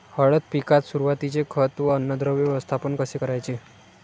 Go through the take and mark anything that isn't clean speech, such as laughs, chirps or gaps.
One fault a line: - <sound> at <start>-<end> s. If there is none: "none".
none